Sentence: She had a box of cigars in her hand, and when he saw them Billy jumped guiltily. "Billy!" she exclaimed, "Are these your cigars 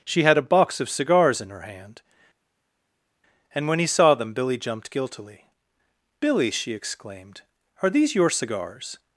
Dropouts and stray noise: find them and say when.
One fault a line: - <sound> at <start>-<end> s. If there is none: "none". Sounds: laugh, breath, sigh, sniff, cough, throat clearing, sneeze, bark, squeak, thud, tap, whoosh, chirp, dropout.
none